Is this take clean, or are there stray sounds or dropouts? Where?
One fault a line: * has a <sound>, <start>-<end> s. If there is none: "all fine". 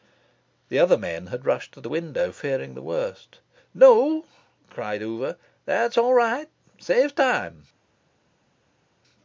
all fine